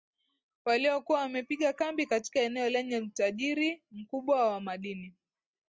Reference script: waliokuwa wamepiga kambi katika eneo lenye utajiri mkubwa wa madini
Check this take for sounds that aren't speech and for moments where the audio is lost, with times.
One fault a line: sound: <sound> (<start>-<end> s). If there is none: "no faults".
no faults